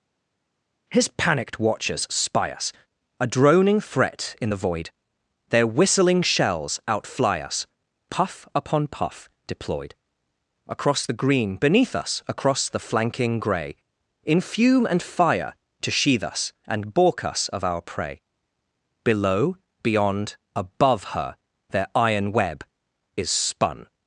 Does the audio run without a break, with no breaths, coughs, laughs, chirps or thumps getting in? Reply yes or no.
yes